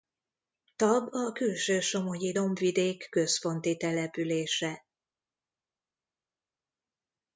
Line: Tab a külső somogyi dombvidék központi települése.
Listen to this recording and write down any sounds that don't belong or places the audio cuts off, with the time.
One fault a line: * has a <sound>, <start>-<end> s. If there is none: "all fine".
all fine